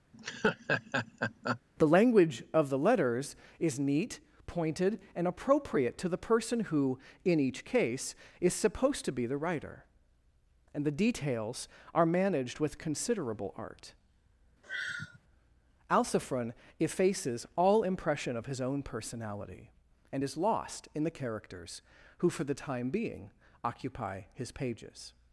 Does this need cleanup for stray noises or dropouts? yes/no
yes